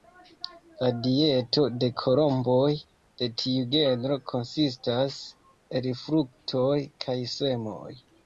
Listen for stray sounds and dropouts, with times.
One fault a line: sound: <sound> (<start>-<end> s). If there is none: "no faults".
no faults